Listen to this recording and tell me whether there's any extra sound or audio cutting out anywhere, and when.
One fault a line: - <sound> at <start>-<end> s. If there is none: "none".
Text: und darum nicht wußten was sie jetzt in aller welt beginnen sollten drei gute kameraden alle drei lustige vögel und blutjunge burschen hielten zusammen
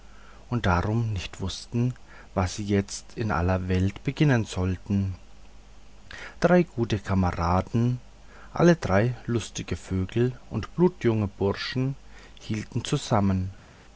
none